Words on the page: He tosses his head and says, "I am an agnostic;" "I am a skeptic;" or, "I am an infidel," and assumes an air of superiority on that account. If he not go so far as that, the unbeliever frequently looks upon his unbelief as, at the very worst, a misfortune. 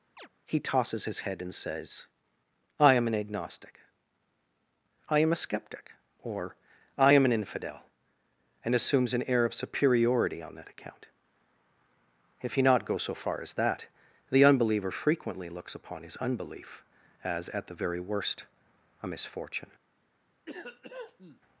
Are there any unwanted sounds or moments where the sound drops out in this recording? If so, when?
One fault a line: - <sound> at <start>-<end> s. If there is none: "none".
- chirp at 0.2-0.3 s
- cough at 20.5-21.4 s